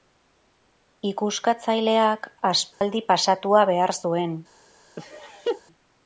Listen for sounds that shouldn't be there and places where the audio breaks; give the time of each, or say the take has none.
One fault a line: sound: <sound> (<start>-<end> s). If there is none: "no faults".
sound: dropout (2.7-2.8 s)
sound: laugh (5.0-5.6 s)